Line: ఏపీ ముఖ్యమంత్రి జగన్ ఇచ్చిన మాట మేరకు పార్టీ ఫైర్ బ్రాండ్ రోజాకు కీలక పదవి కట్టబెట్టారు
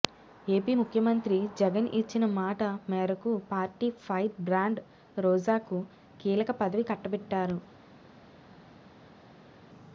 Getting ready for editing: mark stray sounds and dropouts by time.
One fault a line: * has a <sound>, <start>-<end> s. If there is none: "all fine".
all fine